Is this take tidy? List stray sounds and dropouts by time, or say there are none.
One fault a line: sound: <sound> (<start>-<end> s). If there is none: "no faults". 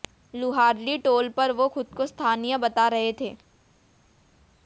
no faults